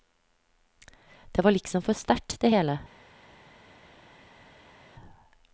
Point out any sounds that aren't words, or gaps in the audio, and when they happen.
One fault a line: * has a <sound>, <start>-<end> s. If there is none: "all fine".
all fine